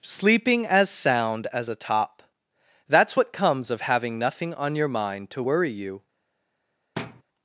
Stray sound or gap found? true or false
true